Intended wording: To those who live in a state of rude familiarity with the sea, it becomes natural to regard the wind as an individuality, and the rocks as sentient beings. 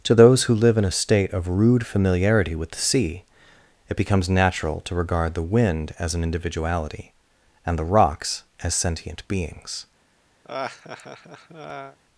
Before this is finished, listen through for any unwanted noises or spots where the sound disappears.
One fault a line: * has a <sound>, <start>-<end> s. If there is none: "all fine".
* has a laugh, 10.4-12.0 s